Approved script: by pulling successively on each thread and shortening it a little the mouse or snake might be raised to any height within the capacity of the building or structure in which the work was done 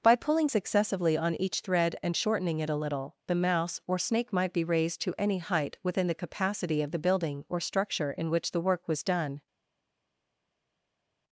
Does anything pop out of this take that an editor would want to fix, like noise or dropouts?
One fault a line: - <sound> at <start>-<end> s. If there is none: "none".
none